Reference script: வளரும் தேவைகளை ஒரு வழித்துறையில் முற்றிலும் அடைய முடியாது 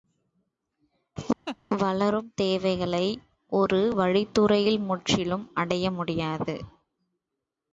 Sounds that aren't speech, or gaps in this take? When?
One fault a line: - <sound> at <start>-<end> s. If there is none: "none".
- laugh at 1.5-1.6 s